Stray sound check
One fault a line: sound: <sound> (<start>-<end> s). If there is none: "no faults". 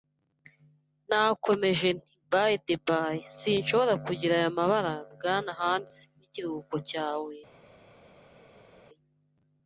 no faults